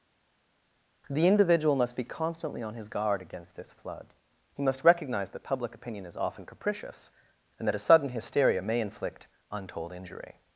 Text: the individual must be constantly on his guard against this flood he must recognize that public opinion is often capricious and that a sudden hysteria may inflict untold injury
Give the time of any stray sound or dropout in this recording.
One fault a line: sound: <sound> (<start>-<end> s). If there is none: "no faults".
no faults